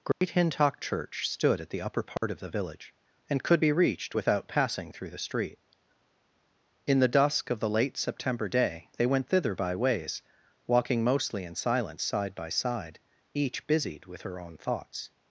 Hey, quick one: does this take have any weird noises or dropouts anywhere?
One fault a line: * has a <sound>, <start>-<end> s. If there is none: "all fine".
* has a dropout, 0.1-0.2 s
* has a dropout, 2.2-2.2 s